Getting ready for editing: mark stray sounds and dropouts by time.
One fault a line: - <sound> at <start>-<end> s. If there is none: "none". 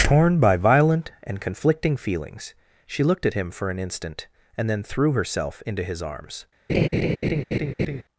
- laugh at 6.7-8.0 s